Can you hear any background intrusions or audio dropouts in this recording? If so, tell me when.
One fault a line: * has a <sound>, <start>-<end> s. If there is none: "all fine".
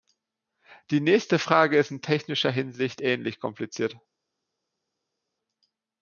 all fine